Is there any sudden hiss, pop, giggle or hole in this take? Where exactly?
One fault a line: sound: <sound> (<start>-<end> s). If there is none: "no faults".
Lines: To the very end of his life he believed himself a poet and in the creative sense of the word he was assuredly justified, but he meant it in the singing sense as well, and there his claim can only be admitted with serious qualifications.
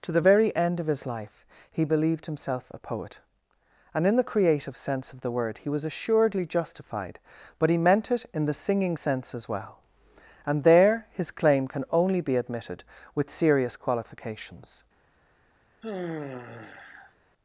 sound: sigh (15.8-17.1 s)